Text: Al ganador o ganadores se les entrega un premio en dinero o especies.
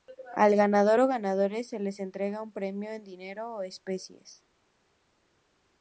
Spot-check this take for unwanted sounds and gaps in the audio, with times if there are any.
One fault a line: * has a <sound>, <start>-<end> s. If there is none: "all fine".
all fine